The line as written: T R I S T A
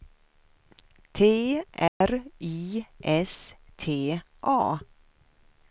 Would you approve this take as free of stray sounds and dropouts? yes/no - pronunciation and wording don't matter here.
no